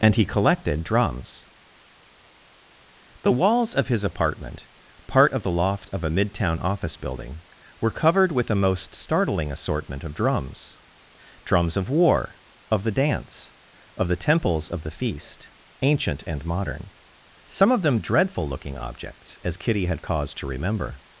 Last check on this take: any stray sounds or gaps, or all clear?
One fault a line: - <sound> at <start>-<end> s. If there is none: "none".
none